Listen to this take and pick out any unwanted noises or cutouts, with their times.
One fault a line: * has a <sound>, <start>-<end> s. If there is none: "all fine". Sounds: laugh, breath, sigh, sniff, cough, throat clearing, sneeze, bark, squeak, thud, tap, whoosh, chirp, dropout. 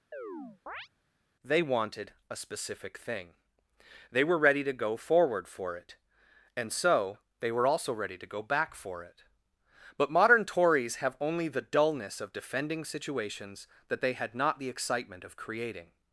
* has a chirp, 0.1-0.9 s